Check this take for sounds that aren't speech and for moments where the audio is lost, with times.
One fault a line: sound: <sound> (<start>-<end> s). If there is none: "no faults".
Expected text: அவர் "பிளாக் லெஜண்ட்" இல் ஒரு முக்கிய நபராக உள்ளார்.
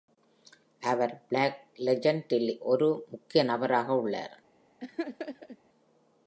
sound: laugh (4.8-5.6 s)